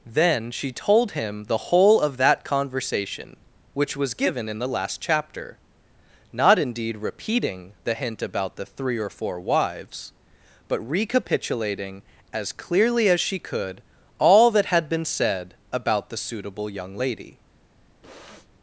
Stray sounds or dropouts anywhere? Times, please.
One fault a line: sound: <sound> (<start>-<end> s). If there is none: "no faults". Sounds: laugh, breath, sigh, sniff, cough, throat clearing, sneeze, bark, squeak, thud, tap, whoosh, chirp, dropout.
sound: sniff (18.0-18.5 s)